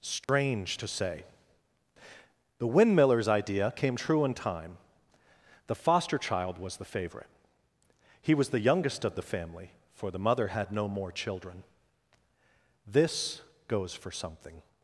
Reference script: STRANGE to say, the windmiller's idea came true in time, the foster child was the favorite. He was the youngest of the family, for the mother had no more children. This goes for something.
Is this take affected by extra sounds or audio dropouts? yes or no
yes